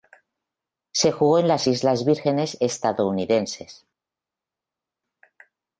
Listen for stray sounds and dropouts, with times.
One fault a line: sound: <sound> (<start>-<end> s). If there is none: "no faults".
no faults